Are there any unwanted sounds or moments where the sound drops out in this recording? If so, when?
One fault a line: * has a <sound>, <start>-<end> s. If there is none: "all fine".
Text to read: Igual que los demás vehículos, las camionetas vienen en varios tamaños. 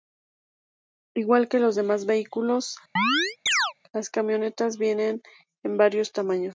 * has a chirp, 3.0-3.7 s